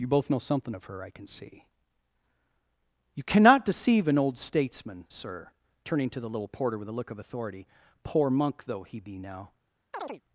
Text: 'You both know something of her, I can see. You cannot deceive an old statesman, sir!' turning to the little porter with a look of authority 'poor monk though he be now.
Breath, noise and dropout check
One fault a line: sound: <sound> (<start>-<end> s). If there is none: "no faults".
sound: chirp (9.9-10.2 s)